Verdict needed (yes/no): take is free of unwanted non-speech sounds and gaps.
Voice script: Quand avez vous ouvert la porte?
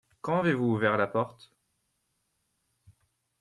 yes